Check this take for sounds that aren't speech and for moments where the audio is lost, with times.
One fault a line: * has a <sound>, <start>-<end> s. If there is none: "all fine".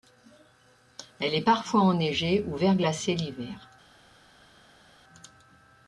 all fine